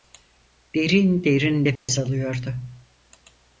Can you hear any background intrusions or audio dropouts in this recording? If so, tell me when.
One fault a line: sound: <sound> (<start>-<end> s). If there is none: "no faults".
sound: dropout (1.8-1.9 s)